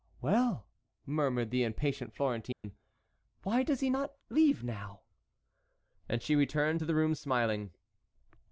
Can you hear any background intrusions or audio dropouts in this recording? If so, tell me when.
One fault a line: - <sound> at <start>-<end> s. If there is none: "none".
- dropout at 2.5-2.6 s